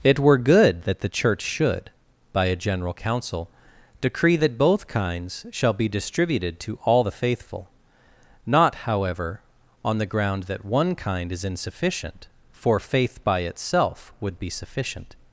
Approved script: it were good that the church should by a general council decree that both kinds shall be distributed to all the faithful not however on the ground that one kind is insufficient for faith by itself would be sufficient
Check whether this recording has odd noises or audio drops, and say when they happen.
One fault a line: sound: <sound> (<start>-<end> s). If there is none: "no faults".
no faults